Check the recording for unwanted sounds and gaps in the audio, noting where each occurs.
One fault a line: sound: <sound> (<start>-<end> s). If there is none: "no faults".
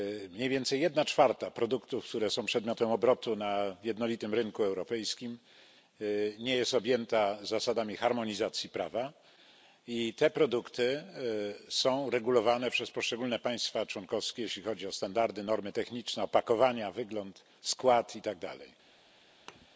sound: thud (19.5-19.7 s)